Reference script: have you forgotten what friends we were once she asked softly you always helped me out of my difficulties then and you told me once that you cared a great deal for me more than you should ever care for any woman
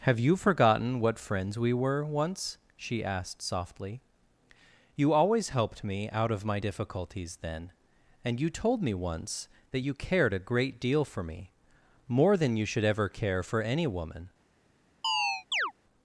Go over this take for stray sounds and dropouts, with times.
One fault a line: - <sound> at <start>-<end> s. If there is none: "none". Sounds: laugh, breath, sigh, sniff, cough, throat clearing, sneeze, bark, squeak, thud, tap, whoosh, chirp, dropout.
- chirp at 15.0-15.7 s